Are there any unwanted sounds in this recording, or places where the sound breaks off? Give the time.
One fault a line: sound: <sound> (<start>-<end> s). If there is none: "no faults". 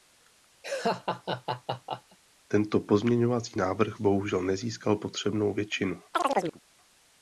sound: laugh (0.6-2.2 s)
sound: chirp (6.1-6.6 s)